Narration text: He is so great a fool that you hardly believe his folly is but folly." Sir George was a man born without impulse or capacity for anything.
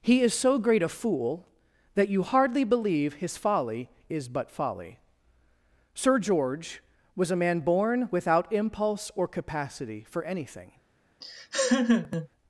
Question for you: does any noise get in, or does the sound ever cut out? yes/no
yes